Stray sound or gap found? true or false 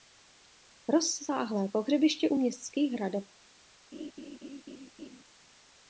true